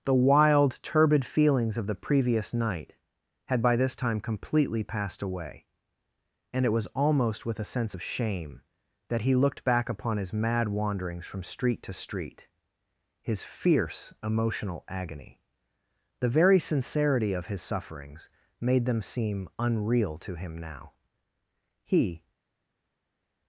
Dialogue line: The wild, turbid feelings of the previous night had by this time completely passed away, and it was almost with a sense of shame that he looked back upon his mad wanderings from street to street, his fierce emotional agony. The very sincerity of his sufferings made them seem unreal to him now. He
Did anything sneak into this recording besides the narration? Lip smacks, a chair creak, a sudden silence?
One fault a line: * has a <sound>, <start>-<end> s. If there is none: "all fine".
all fine